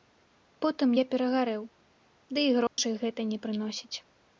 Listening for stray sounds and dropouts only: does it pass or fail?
fail